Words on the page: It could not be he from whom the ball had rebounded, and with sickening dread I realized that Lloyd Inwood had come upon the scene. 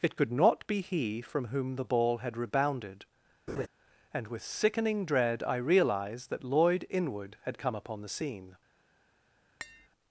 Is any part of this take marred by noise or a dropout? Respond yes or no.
yes